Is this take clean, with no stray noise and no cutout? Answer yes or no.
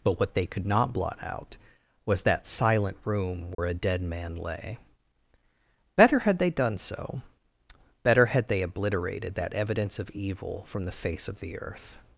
no